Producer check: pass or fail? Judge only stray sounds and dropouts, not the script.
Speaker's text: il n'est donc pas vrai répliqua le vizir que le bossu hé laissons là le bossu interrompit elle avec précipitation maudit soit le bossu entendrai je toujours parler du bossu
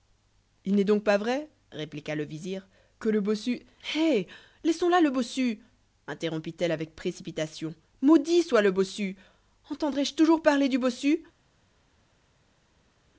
pass